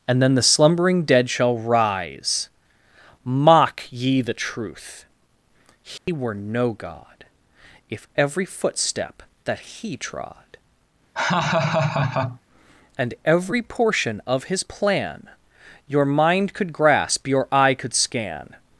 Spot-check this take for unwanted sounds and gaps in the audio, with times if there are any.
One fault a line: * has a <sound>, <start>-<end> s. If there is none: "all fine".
* has a dropout, 6.0-6.1 s
* has a laugh, 11.1-12.4 s